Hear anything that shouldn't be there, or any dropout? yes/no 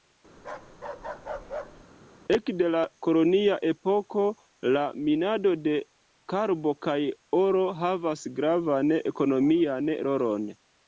yes